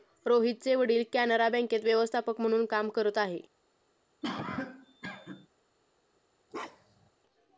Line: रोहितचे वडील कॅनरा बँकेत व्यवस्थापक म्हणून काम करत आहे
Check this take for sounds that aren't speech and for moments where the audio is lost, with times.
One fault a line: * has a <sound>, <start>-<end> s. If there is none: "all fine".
* has a cough, 4.2-5.5 s
* has a bark, 6.5-7.1 s